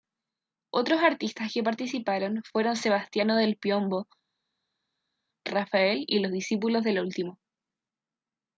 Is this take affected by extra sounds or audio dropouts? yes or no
no